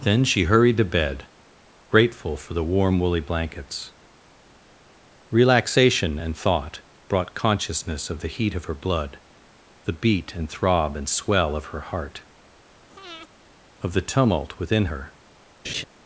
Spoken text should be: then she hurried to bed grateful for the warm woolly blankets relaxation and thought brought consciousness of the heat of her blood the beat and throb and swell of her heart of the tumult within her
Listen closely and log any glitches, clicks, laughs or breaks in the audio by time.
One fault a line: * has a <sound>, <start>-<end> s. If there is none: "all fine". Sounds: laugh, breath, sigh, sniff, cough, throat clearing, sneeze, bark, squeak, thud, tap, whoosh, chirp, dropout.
* has a breath, 12.9-13.3 s
* has a laugh, 15.6-15.8 s